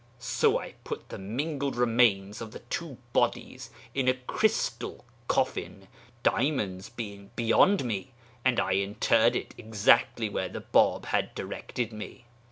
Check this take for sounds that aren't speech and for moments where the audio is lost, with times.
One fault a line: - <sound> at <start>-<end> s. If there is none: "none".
none